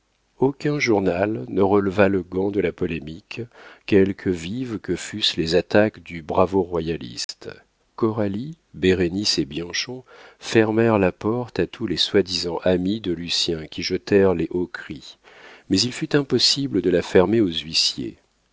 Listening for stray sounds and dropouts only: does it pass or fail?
fail